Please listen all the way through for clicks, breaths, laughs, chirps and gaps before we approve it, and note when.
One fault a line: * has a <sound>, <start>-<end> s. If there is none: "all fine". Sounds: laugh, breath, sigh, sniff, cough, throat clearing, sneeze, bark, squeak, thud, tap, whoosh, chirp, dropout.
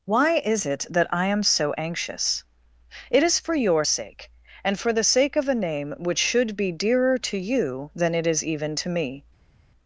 all fine